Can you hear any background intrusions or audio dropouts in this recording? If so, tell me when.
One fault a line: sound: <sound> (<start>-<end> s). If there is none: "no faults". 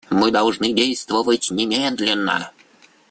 no faults